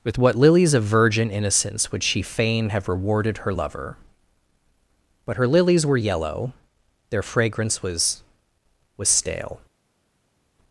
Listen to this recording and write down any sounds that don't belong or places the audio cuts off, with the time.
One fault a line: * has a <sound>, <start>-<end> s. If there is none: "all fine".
all fine